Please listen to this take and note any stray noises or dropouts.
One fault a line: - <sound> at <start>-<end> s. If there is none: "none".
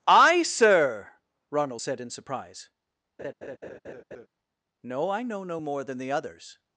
- laugh at 3.2-4.3 s